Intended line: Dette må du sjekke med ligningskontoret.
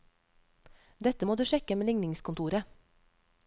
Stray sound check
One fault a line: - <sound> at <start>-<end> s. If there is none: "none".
none